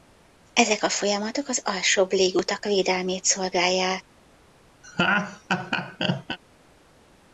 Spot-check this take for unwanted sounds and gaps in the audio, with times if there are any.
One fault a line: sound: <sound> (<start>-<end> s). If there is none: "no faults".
sound: laugh (4.8-6.4 s)